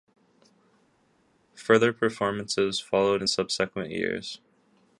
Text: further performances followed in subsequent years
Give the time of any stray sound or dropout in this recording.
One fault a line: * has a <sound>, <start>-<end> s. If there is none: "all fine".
all fine